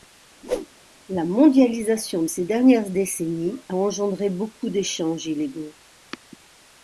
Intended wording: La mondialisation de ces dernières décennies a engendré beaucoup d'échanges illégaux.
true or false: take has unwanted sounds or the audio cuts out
true